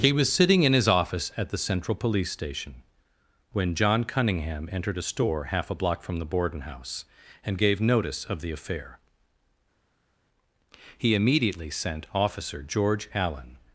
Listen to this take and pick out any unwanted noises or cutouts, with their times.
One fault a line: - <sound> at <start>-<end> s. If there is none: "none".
none